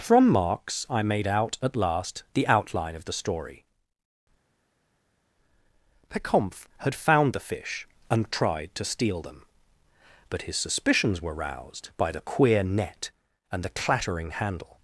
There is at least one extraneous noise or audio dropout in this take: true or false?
false